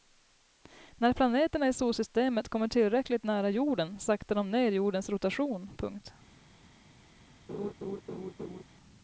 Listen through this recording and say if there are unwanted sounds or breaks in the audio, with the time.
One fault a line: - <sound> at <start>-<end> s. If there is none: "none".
- laugh at 7.5-8.6 s